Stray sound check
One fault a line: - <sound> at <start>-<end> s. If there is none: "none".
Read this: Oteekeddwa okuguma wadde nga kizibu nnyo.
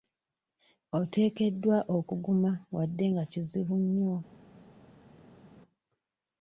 none